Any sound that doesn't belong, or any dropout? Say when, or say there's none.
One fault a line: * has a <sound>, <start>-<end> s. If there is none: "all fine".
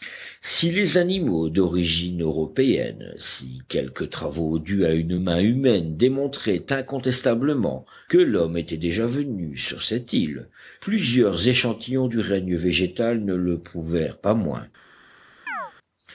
* has a chirp, 15.5-15.7 s